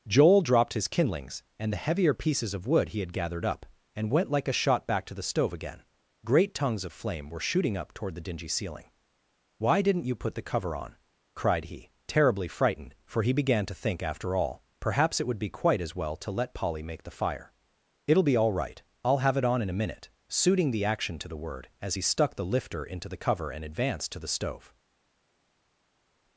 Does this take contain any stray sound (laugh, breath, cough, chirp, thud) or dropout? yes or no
no